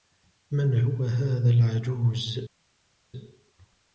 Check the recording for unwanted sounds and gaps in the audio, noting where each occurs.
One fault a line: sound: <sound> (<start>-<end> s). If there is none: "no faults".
no faults